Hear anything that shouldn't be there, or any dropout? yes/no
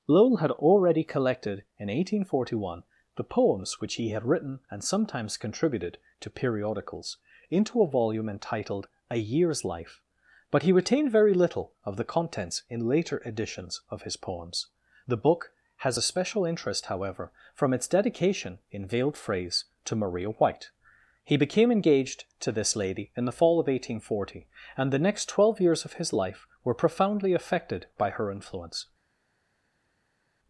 no